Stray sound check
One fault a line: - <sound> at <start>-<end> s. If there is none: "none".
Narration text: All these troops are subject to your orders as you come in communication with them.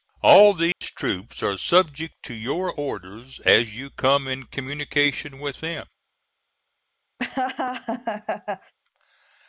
- dropout at 0.7-0.8 s
- laugh at 7.2-8.7 s